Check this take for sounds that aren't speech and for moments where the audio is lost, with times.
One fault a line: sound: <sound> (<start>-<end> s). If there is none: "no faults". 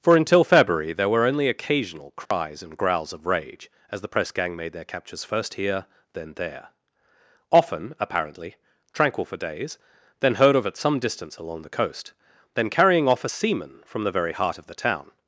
sound: dropout (2.3-2.3 s)